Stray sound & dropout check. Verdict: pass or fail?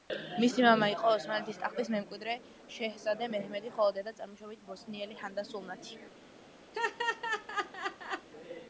fail